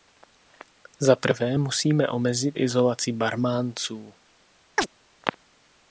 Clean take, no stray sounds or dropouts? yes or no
no